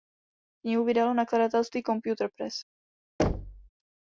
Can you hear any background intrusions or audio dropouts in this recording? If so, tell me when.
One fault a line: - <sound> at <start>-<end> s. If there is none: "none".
- thud at 3.2-3.7 s